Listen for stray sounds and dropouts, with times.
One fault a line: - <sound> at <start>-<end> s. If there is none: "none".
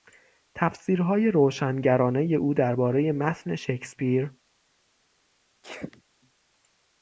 - sneeze at 5.6-6.0 s